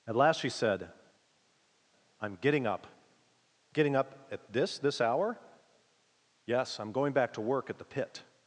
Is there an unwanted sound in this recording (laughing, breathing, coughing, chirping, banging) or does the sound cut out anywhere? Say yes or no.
no